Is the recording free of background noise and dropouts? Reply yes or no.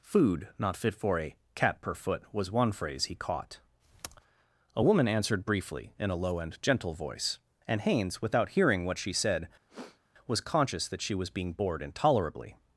no